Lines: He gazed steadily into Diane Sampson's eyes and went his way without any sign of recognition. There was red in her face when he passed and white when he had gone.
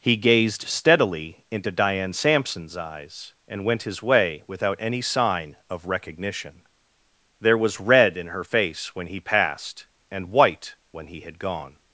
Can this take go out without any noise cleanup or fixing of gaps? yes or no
yes